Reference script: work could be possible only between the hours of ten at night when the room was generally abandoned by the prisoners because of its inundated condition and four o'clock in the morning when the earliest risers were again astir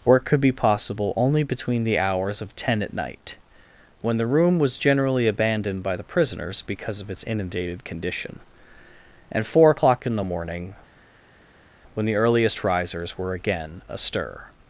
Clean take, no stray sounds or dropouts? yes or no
yes